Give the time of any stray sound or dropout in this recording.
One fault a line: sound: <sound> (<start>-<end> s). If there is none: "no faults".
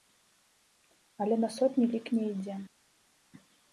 no faults